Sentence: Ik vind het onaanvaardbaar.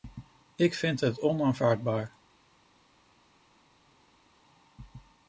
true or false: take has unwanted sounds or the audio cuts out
false